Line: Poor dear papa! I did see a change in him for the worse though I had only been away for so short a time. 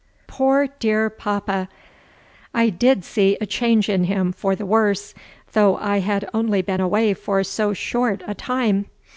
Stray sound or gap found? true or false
false